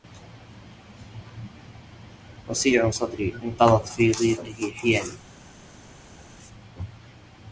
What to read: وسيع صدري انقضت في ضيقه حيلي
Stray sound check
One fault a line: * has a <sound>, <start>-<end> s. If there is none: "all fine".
all fine